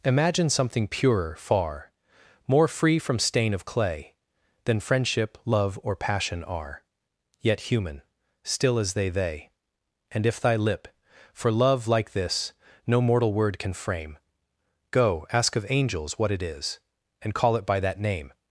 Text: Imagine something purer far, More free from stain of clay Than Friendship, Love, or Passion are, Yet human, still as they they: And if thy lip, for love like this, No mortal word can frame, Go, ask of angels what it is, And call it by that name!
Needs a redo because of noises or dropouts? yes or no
no